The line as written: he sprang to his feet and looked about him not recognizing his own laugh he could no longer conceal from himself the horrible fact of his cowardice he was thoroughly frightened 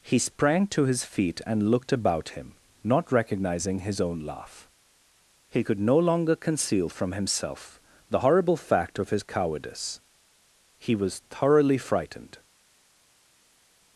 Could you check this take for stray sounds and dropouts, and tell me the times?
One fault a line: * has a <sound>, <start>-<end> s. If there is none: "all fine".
all fine